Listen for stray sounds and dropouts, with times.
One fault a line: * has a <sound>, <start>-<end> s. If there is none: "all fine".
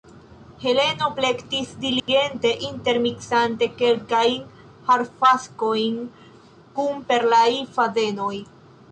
* has a dropout, 2.0-2.1 s